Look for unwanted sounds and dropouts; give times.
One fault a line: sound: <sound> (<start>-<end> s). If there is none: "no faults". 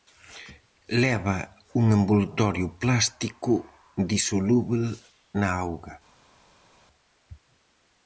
no faults